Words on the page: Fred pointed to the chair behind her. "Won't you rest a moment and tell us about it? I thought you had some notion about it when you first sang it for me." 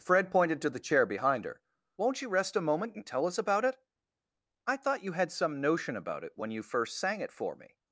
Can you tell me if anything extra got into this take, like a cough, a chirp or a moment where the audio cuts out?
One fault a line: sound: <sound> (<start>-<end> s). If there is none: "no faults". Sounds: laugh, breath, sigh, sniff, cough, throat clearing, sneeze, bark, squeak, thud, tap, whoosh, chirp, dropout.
no faults